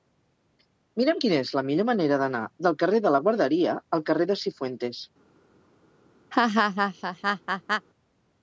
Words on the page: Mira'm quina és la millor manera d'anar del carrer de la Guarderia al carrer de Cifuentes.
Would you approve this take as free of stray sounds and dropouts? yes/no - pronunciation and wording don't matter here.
no